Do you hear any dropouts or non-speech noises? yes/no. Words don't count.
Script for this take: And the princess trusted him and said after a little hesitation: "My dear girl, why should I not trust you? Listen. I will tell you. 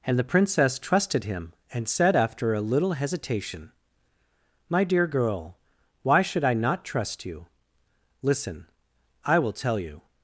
no